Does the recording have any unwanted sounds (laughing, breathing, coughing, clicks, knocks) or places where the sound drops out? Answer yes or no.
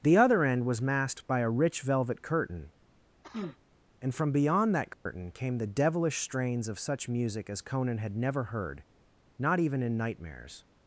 yes